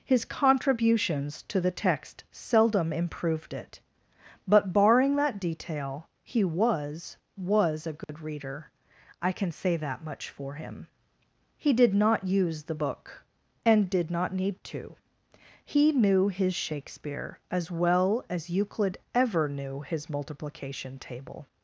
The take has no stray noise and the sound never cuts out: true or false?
false